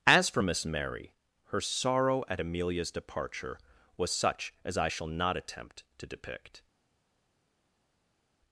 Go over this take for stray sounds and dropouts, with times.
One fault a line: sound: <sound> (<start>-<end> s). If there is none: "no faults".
no faults